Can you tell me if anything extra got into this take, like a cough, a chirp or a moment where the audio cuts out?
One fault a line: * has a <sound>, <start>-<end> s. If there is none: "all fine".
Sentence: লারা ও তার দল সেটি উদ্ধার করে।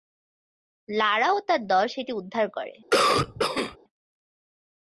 * has a cough, 2.9-3.8 s